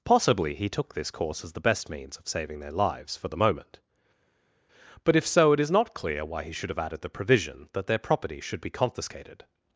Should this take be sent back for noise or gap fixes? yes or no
no